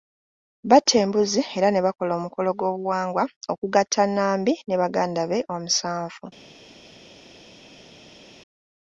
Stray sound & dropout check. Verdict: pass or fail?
pass